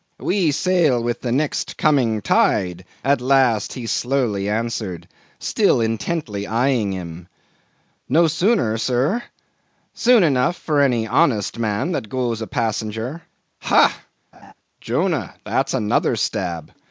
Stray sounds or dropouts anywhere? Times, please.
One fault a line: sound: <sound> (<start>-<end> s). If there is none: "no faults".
sound: laugh (14.3-14.5 s)